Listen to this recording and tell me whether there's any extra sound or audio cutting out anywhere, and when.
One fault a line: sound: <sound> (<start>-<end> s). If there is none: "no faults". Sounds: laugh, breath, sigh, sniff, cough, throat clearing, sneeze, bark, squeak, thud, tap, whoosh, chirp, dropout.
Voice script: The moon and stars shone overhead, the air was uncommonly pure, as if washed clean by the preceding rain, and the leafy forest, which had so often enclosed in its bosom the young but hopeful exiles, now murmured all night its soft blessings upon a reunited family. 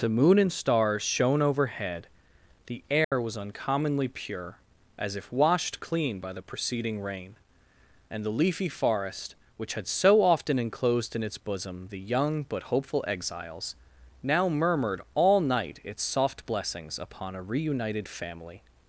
sound: dropout (3.0-3.1 s)